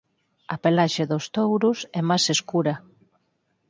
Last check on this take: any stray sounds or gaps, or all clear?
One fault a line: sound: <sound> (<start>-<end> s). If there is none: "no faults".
no faults